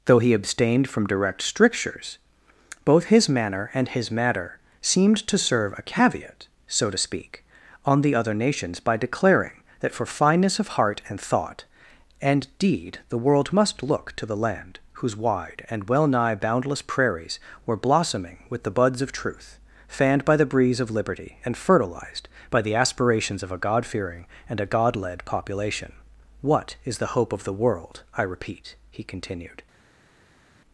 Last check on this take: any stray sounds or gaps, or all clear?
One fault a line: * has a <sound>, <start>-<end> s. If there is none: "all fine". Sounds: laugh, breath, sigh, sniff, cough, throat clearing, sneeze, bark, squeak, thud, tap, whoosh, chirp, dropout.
all fine